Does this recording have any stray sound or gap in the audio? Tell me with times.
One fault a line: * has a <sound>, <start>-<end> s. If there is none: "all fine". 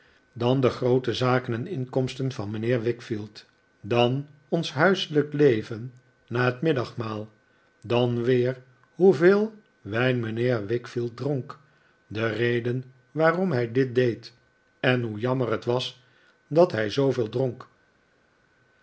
all fine